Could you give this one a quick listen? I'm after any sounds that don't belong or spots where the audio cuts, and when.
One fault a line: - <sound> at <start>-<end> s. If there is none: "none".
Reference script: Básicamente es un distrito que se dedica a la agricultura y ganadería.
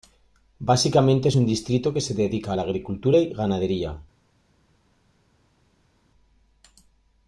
none